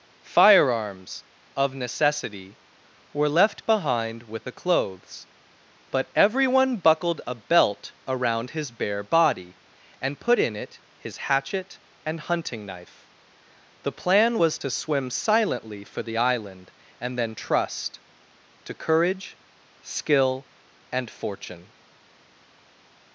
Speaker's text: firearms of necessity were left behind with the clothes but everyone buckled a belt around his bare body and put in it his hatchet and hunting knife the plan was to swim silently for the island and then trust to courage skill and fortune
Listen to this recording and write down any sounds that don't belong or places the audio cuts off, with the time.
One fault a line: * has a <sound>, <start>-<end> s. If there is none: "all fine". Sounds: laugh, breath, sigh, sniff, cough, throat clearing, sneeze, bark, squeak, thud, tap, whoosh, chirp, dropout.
all fine